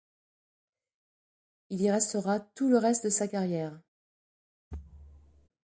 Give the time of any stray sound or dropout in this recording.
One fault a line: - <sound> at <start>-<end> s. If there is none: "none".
- thud at 4.7-5.5 s